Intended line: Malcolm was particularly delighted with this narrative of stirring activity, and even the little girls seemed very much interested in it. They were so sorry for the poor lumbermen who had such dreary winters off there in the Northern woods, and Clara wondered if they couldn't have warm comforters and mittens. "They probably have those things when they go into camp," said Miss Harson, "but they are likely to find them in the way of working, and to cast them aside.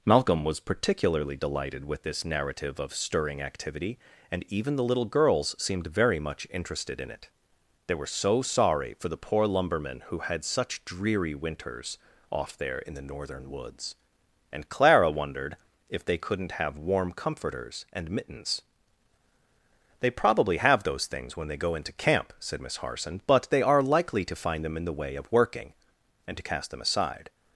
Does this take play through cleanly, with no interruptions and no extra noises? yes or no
yes